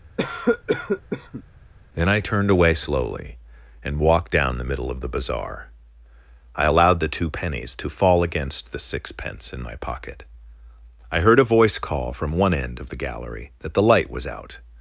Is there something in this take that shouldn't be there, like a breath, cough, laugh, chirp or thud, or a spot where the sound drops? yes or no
yes